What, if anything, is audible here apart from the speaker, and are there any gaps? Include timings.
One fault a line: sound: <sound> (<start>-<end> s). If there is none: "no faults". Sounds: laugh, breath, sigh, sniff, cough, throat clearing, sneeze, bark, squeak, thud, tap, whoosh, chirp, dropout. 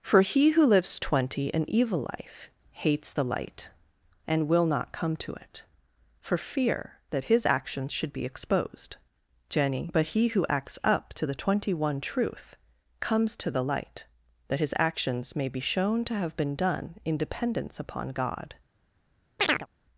sound: chirp (19.4-19.7 s)